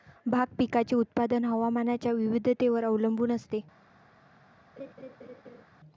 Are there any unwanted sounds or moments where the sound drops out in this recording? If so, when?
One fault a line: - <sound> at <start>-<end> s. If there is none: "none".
- laugh at 4.8-5.6 s